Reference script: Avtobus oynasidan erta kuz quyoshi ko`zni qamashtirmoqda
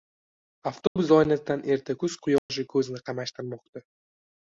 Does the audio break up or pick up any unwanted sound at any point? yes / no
yes